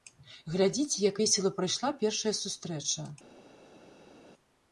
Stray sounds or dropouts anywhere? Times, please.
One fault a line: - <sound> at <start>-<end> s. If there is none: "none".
none